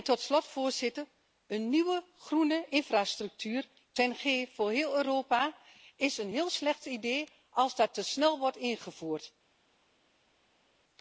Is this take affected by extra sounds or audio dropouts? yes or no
no